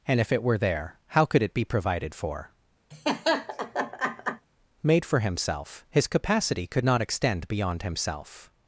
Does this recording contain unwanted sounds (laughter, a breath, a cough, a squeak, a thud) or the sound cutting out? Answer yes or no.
yes